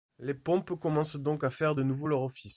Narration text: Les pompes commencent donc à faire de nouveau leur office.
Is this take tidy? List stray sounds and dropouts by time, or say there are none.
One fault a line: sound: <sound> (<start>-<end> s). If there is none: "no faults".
no faults